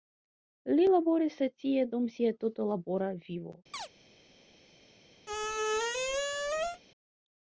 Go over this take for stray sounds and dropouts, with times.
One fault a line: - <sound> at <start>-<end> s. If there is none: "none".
- chirp at 3.7-3.9 s
- squeak at 5.3-6.8 s